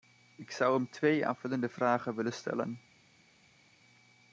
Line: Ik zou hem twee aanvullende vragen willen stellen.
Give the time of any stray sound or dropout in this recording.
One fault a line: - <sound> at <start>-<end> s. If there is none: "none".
none